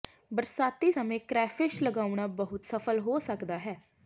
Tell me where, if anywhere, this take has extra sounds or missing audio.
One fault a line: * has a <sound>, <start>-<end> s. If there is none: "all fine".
all fine